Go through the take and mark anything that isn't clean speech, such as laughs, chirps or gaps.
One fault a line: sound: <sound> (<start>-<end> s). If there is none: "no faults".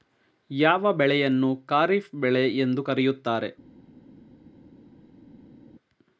no faults